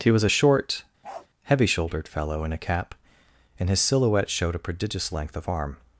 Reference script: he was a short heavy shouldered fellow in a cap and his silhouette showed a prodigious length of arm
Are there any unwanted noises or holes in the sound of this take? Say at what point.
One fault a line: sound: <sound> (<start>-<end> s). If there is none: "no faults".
sound: bark (1.0-1.3 s)